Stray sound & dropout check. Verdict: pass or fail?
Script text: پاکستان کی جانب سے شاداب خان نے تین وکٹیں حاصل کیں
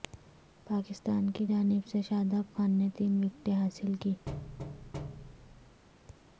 fail